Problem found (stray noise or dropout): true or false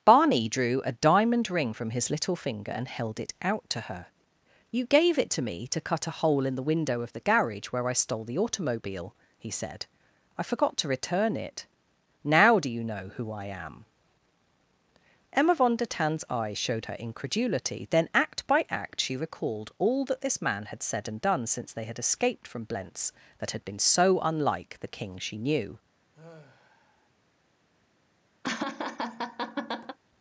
true